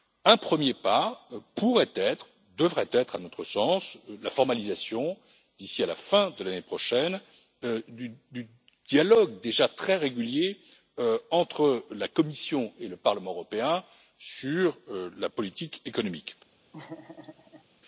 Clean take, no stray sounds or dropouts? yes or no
no